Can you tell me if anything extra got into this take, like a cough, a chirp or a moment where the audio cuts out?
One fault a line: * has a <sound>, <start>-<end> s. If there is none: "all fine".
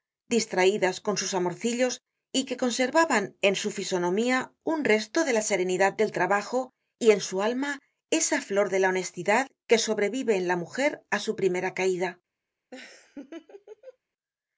* has a laugh, 12.7-14.0 s